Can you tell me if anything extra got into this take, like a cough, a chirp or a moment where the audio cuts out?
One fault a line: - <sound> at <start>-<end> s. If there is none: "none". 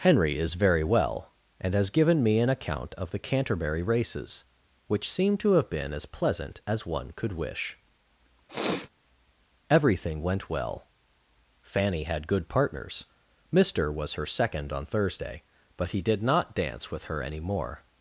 - sniff at 8.5-8.9 s